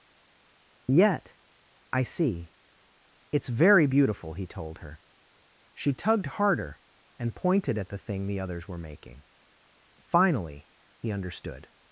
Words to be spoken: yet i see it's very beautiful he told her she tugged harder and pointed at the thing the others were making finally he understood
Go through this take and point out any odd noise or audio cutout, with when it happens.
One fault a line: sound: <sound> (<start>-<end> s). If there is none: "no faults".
no faults